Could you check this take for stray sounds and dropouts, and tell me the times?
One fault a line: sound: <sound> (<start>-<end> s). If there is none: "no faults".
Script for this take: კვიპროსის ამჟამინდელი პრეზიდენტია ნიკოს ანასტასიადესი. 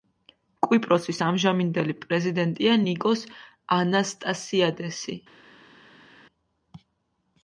no faults